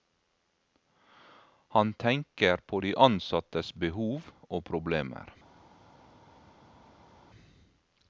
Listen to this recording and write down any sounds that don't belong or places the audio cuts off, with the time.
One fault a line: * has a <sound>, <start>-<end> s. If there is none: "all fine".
all fine